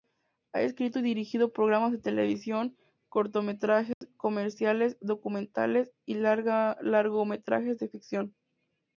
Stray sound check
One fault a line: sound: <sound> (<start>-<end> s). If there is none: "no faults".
sound: dropout (3.9-4.0 s)